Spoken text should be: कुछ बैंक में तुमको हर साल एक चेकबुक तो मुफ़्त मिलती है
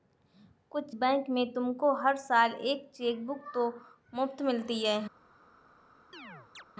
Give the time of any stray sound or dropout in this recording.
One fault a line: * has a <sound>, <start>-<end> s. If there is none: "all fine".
* has a chirp, 6.1-6.6 s